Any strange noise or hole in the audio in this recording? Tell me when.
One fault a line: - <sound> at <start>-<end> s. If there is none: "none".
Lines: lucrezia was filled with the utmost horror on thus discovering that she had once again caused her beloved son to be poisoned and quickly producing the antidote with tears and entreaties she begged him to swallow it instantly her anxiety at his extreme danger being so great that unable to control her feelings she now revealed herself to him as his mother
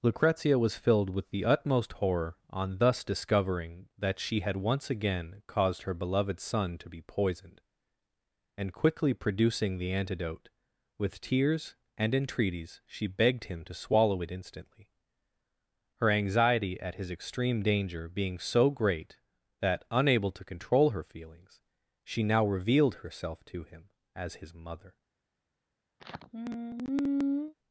- sigh at 26.0-27.5 s